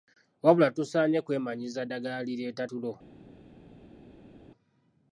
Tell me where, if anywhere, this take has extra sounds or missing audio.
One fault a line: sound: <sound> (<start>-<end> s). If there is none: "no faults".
no faults